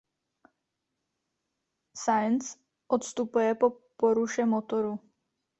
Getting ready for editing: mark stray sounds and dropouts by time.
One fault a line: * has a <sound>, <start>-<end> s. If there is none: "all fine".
all fine